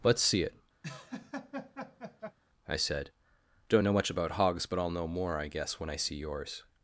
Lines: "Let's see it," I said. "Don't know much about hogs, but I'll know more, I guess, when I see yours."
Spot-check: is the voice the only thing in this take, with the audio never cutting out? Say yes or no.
no